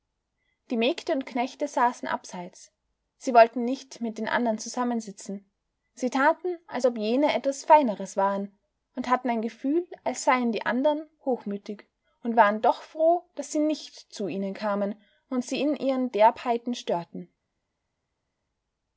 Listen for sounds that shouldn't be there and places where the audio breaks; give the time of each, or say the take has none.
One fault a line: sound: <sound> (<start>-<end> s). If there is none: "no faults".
no faults